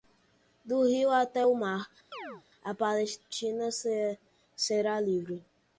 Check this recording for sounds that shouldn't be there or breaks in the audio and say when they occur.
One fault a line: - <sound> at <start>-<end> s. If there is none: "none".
- chirp at 2.1-2.4 s